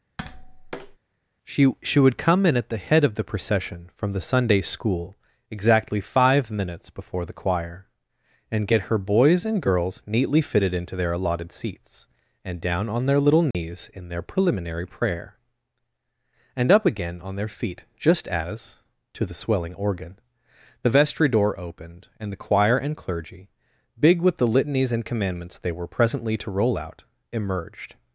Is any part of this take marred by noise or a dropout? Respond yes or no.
yes